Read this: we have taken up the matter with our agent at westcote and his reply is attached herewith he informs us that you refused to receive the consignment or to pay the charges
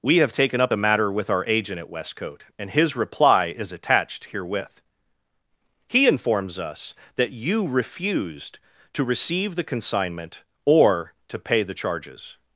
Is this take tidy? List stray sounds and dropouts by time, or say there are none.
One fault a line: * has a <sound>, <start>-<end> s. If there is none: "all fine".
all fine